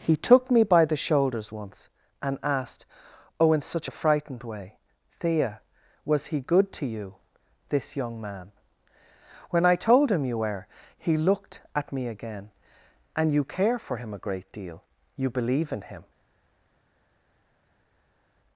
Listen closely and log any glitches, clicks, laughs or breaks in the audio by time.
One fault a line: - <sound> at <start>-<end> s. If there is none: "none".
none